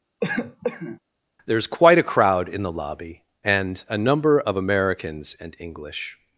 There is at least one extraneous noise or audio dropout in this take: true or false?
true